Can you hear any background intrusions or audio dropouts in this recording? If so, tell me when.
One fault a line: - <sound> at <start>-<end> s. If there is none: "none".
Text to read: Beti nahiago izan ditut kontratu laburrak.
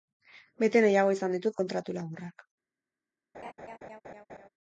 - laugh at 3.3-4.5 s